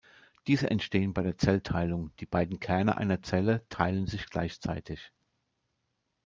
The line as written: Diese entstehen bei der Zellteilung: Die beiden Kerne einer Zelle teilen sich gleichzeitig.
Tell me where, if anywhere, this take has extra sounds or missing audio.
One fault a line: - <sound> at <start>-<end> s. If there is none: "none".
none